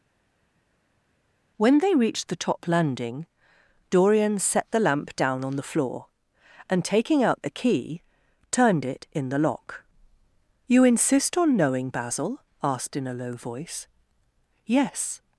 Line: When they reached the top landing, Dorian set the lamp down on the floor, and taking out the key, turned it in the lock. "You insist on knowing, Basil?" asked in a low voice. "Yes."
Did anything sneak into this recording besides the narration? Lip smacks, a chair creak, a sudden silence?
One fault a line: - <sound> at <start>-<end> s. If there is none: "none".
none